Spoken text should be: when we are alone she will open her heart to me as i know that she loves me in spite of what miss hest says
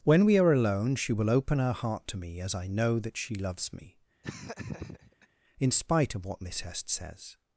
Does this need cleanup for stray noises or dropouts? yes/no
yes